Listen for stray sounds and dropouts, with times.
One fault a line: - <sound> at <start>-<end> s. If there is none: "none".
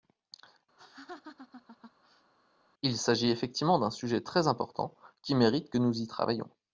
- laugh at 0.8-2.3 s